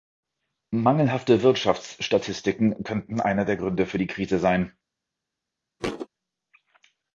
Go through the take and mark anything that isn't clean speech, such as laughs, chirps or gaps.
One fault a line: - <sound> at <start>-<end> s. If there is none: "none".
- thud at 5.8-6.1 s